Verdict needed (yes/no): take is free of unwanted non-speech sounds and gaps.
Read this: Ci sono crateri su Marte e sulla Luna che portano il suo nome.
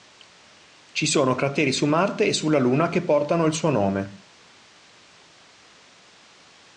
yes